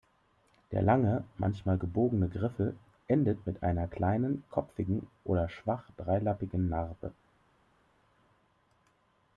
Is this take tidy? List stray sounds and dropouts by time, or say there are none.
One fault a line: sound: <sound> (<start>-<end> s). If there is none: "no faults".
no faults